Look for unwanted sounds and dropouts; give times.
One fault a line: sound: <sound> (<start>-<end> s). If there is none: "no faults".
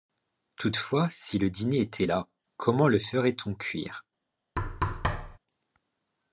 sound: thud (4.6-5.4 s)